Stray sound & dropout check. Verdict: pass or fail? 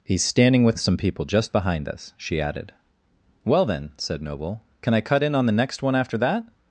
pass